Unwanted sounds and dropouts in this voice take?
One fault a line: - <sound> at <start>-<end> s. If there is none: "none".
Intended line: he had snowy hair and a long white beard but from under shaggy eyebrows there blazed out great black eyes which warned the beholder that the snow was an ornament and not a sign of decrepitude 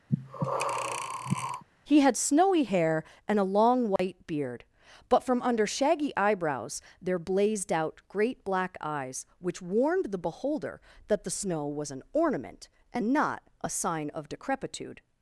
- breath at 0.1-1.6 s
- dropout at 4.0-4.0 s